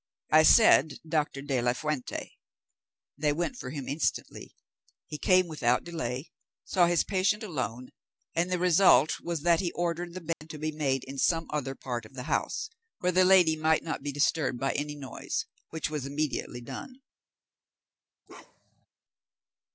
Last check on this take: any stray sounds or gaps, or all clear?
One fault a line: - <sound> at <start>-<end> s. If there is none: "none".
- dropout at 10.3-10.4 s
- bark at 18.3-18.9 s